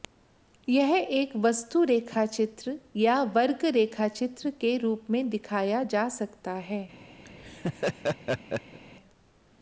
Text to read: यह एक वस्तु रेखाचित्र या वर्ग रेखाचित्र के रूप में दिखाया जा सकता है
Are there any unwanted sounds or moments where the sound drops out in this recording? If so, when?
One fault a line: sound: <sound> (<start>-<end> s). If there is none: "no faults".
sound: laugh (7.2-8.8 s)